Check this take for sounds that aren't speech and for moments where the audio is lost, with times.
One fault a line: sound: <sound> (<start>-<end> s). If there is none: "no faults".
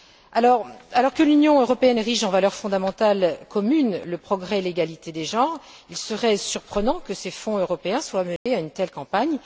sound: dropout (8.4-8.5 s)